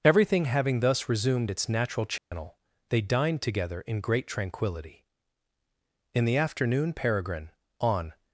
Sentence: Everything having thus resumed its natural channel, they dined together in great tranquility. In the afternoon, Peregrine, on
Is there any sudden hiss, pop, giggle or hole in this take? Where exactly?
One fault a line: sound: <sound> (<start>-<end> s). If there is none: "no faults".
sound: dropout (2.2-2.3 s)